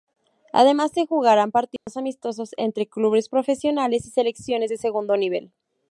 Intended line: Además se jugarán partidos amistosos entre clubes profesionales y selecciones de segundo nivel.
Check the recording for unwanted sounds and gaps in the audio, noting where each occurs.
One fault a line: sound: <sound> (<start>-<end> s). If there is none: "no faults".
sound: dropout (1.8-1.9 s)